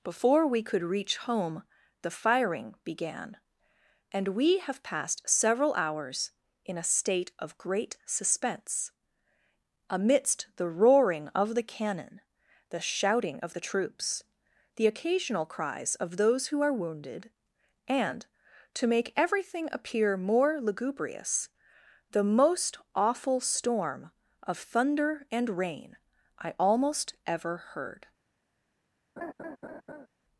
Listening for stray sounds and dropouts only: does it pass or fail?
fail